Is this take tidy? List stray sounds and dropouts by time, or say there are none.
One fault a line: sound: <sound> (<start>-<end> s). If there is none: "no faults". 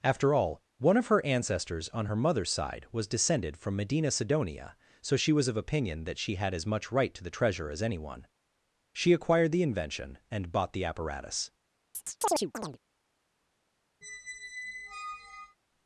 sound: chirp (11.9-12.8 s)
sound: squeak (14.0-15.6 s)